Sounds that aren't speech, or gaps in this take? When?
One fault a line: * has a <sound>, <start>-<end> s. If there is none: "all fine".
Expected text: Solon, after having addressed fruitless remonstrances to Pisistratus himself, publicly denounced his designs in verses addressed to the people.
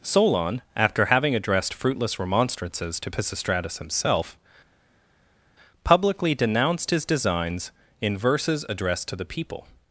all fine